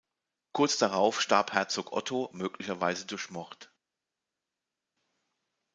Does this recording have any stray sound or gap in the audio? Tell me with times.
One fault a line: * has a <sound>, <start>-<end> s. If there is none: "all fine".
all fine